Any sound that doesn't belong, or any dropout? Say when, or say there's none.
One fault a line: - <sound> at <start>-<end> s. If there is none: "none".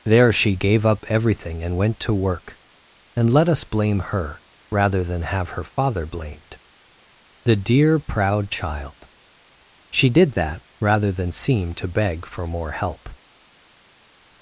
none